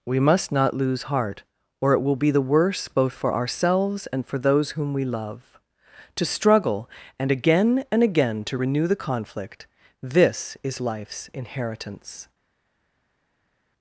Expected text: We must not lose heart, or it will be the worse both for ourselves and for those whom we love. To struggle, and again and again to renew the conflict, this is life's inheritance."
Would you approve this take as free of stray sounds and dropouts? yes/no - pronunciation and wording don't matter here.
yes